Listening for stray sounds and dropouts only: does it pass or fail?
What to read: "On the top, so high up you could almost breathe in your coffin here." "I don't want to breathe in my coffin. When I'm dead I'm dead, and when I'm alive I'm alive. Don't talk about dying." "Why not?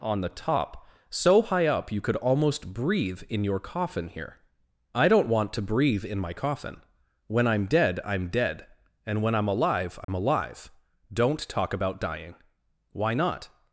fail